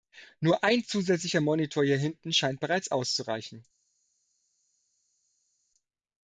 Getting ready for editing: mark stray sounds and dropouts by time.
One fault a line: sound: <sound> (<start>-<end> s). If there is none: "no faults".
no faults